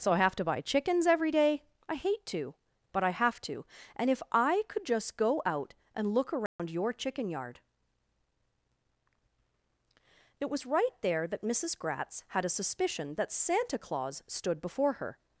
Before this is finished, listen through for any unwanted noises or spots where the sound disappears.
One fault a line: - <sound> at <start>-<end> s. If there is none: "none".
- dropout at 6.5-6.6 s